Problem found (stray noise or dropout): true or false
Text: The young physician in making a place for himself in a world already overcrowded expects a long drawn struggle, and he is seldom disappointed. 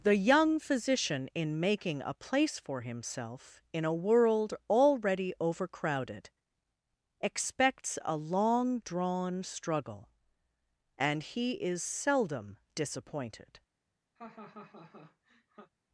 true